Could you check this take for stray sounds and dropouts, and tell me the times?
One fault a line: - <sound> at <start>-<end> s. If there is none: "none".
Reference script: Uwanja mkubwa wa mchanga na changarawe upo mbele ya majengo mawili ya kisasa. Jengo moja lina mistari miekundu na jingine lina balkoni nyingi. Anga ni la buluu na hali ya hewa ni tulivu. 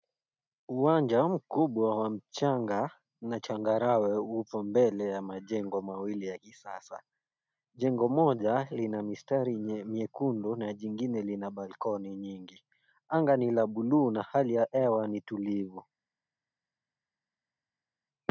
none